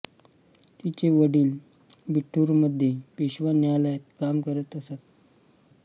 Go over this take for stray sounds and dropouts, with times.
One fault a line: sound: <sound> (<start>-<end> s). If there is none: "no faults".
no faults